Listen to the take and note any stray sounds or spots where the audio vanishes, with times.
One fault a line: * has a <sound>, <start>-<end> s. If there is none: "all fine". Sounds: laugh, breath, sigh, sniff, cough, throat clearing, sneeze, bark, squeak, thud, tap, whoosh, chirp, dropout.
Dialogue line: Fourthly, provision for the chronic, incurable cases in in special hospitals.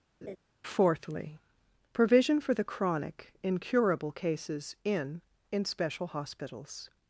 * has a laugh, 0.2-0.4 s